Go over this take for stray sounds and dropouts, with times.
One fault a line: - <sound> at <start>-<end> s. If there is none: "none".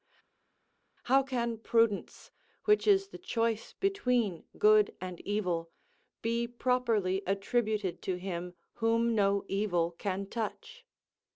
none